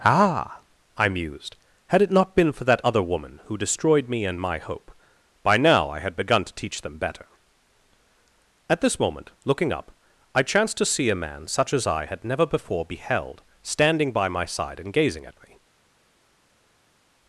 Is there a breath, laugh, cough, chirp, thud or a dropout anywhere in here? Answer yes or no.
no